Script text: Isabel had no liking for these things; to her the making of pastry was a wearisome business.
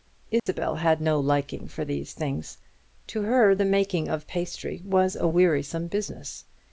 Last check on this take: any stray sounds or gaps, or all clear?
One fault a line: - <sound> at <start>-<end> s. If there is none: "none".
- dropout at 0.4-0.5 s